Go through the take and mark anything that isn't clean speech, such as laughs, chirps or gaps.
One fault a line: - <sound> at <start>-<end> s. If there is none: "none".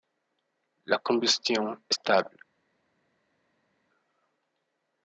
none